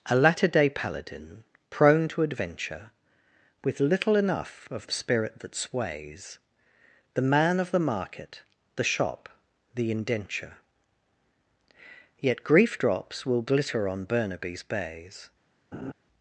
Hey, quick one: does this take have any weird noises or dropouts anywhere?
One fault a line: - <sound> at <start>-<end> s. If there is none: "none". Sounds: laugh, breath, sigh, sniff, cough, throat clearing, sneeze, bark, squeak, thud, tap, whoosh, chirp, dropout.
- laugh at 15.7-15.9 s